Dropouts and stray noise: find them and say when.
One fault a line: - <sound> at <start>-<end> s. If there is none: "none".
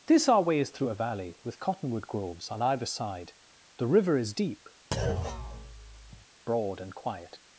- thud at 4.9-6.3 s